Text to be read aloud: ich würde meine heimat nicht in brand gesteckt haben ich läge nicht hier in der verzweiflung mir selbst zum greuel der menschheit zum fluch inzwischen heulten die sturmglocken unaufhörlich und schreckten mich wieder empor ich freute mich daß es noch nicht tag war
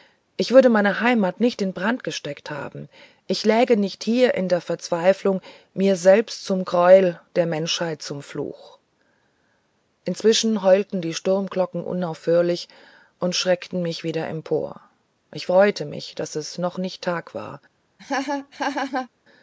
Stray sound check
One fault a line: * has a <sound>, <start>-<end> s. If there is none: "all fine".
* has a laugh, 18.0-19.1 s